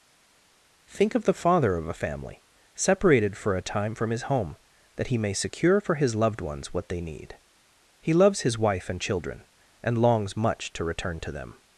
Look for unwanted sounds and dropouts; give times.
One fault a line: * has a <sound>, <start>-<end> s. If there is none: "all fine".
all fine